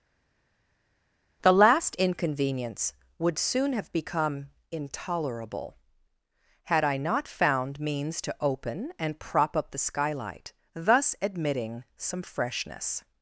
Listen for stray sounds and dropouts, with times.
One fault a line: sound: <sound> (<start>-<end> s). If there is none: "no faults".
no faults